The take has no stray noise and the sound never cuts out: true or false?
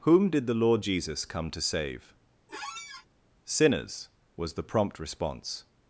false